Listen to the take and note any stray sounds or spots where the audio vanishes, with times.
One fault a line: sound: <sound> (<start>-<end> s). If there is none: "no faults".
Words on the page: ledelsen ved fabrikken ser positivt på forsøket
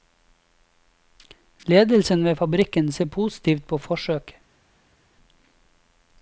no faults